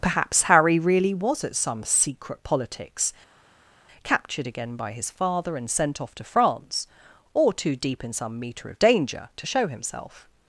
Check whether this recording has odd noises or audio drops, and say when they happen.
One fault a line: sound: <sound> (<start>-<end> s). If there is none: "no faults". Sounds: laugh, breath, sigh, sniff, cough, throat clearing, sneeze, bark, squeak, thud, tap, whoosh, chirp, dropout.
no faults